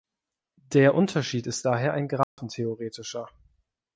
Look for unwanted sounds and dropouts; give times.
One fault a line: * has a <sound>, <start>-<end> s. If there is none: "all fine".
* has a dropout, 2.2-2.4 s